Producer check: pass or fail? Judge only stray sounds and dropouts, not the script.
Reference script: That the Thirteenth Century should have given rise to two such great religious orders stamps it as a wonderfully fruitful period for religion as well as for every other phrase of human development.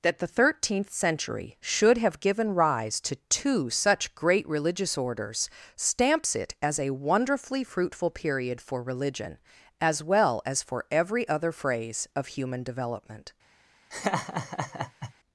fail